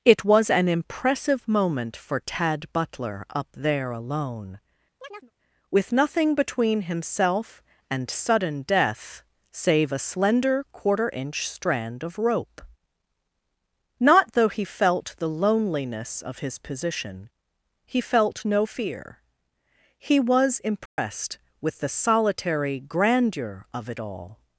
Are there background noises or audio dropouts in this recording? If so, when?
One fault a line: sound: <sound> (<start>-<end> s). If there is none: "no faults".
sound: chirp (5.0-5.3 s)
sound: dropout (20.9-21.0 s)